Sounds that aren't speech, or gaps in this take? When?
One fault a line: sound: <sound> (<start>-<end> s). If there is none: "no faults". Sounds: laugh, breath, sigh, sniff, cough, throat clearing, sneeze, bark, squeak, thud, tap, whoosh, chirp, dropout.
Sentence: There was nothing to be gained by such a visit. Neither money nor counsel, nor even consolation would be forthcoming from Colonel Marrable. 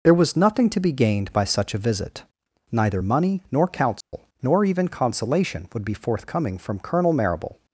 sound: dropout (4.0-4.1 s)